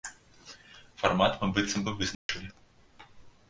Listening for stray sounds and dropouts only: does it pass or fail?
fail